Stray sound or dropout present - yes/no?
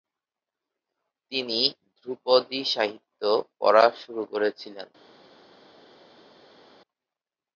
no